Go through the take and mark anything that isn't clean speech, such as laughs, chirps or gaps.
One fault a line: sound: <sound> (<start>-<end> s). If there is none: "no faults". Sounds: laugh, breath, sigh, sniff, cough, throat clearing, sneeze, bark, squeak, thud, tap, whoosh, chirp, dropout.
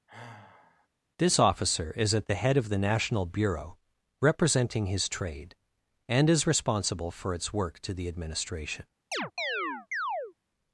sound: sigh (0.1-0.9 s)
sound: chirp (9.1-10.3 s)